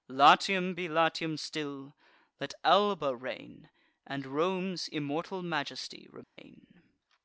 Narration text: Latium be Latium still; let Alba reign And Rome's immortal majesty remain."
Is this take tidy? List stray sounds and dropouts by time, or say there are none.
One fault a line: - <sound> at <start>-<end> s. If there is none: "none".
- dropout at 6.2-6.4 s